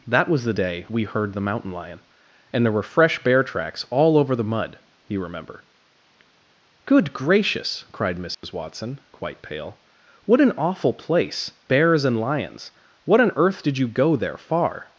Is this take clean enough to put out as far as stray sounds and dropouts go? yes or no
no